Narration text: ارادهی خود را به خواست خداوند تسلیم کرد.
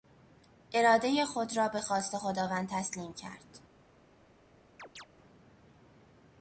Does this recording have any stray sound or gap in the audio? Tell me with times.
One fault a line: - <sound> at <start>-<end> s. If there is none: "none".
- chirp at 4.8-5.1 s